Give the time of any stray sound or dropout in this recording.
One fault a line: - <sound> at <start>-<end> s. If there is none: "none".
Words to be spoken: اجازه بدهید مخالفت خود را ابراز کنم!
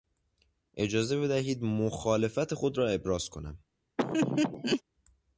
- laugh at 4.0-4.8 s